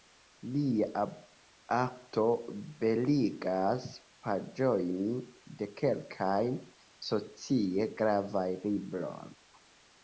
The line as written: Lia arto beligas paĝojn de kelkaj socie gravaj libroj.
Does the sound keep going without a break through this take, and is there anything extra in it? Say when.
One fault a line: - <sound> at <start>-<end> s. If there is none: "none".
none